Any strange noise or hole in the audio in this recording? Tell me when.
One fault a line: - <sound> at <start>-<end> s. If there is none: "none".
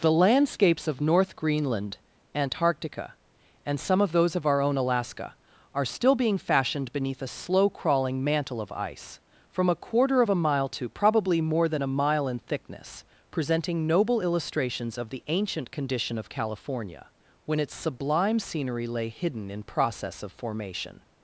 none